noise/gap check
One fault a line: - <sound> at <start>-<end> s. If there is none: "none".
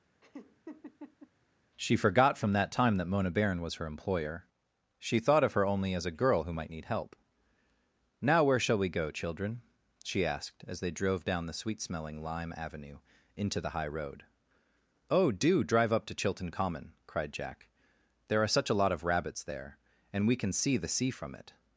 - laugh at 0.2-1.3 s